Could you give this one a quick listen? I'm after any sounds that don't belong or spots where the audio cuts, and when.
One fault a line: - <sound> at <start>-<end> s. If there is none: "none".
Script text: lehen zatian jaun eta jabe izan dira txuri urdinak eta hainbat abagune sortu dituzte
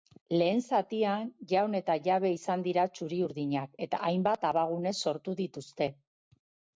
none